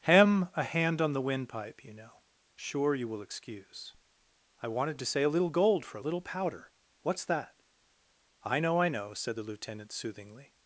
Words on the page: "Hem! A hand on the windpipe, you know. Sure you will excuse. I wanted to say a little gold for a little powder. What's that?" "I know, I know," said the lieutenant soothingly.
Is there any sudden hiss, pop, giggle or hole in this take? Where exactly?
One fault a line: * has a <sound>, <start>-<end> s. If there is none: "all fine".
all fine